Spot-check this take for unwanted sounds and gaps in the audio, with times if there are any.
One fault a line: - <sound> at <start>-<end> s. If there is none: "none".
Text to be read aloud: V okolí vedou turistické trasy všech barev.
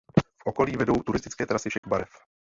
- dropout at 1.8-1.8 s